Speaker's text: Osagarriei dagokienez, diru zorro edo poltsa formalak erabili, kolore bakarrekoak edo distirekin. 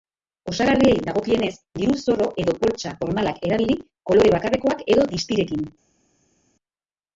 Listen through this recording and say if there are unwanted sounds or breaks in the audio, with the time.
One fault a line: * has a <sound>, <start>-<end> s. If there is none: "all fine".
all fine